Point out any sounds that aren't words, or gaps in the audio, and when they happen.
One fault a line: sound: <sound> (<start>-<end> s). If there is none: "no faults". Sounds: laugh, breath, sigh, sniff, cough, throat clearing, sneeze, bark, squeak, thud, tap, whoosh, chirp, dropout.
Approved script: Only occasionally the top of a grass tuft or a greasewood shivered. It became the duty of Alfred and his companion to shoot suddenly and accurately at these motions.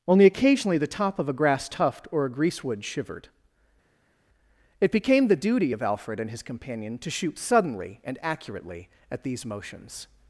no faults